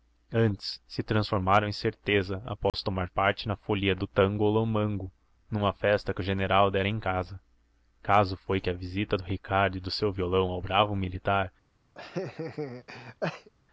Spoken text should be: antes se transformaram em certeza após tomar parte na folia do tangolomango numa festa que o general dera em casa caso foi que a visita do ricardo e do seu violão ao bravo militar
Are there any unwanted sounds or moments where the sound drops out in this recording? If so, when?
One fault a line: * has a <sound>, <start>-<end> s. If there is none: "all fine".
* has a dropout, 2.7-2.7 s
* has a laugh, 11.9-13.5 s